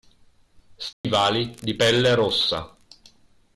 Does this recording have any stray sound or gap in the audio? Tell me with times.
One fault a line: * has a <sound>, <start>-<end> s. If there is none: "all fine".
* has a dropout, 0.9-1.0 s